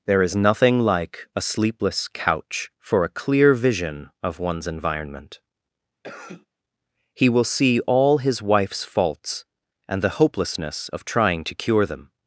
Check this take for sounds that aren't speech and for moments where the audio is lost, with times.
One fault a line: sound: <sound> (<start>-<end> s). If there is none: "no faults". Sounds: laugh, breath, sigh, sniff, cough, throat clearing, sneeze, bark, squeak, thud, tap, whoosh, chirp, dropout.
sound: cough (6.0-6.5 s)